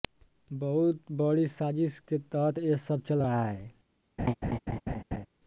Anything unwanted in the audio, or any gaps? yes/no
yes